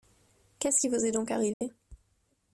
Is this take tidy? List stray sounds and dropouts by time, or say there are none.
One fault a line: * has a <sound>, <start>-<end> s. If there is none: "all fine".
* has a dropout, 1.5-1.6 s